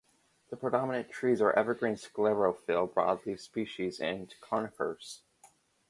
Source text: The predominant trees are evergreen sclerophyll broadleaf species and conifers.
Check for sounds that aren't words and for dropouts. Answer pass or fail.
pass